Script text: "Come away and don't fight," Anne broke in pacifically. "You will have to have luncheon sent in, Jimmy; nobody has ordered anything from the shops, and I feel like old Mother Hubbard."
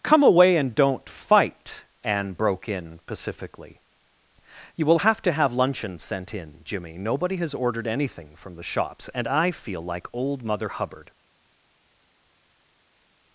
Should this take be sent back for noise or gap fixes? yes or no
no